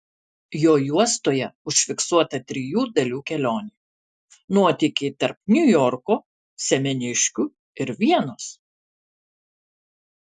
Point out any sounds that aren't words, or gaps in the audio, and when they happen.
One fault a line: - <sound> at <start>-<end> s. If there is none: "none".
none